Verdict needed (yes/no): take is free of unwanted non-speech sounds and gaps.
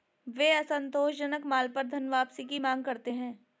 yes